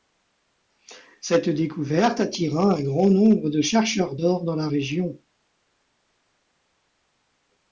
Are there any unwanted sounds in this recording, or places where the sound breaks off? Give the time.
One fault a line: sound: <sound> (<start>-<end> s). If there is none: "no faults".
no faults